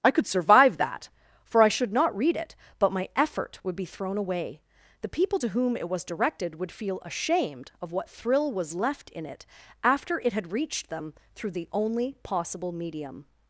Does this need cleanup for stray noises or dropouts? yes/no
no